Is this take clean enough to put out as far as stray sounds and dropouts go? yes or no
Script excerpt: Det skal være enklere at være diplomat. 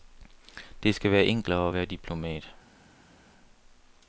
yes